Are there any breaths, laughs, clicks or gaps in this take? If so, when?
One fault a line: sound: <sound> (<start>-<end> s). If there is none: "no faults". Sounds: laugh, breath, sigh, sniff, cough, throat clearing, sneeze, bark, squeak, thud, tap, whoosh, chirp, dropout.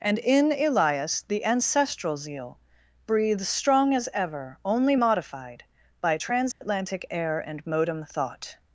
sound: dropout (6.5-6.6 s)